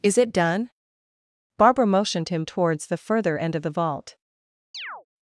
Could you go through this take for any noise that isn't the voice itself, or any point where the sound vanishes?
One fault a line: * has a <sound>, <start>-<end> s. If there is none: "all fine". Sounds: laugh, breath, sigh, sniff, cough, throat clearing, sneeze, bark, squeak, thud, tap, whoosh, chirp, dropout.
* has a chirp, 4.7-5.1 s